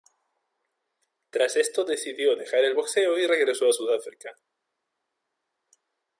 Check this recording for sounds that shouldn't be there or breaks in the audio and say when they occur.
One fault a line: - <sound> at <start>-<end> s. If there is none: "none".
none